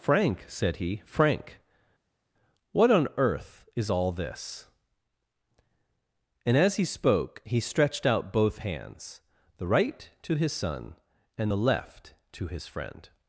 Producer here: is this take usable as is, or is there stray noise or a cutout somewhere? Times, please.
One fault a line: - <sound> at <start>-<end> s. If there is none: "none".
none